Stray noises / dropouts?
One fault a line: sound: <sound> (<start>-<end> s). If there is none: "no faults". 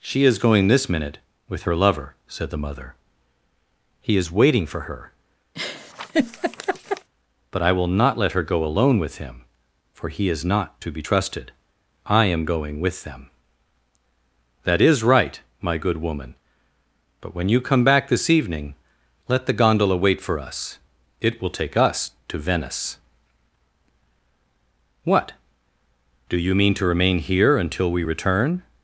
sound: laugh (5.6-7.1 s)